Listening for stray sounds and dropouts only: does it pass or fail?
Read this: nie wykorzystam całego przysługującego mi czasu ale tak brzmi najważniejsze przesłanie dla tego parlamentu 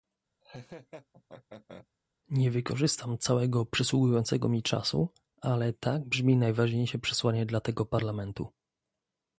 fail